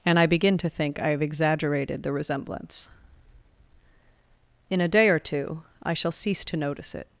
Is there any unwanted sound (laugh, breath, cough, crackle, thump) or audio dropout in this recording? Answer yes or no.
no